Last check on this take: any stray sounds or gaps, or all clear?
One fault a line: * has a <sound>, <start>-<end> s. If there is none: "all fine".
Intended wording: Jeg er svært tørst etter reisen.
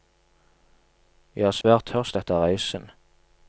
* has a dropout, 1.6-1.6 s